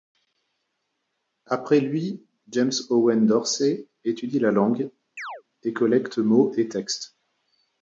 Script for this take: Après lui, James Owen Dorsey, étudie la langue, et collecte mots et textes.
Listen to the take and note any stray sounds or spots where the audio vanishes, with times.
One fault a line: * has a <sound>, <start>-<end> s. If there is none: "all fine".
* has a chirp, 5.2-5.4 s